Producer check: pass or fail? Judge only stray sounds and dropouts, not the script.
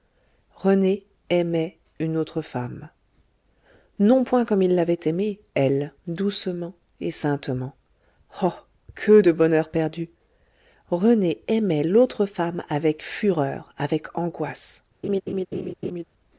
fail